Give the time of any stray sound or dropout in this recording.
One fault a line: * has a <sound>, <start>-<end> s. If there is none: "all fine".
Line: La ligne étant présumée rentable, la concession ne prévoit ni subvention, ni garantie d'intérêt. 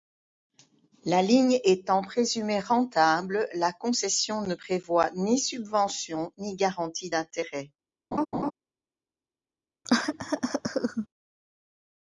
* has a laugh, 8.1-8.5 s
* has a cough, 9.8-11.1 s